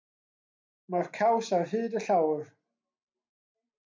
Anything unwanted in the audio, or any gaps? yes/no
no